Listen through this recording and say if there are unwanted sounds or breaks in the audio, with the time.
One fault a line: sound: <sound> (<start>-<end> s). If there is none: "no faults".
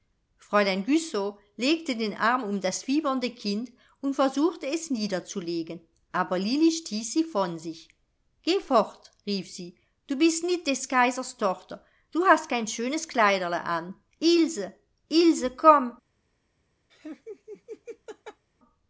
sound: laugh (16.9-18.4 s)